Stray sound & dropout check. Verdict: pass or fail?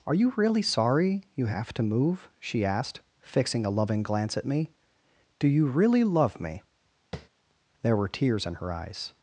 fail